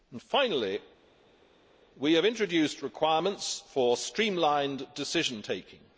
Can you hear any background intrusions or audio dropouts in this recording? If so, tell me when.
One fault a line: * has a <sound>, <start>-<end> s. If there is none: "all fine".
all fine